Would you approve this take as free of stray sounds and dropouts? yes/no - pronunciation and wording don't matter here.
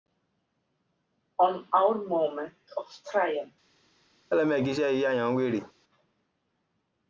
no